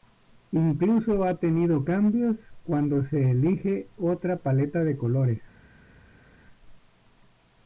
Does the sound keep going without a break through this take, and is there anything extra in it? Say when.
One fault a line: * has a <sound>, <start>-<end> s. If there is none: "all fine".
all fine